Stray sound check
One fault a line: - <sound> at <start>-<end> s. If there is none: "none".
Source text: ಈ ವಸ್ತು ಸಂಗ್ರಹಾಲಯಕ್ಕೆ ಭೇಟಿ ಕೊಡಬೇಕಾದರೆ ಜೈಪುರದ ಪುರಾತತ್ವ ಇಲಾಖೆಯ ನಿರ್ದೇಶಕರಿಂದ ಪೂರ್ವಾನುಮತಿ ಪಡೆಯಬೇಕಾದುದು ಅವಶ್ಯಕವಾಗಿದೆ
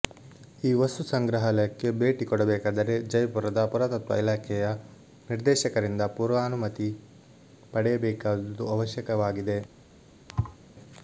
- thud at 10.3-10.6 s